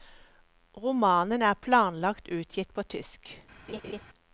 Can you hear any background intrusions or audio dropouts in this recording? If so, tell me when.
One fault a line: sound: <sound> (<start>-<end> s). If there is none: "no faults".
sound: laugh (3.7-4.0 s)